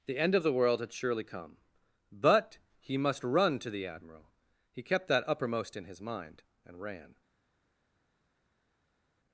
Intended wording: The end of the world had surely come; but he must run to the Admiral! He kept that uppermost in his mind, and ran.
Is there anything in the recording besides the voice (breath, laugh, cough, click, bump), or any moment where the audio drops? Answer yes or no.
no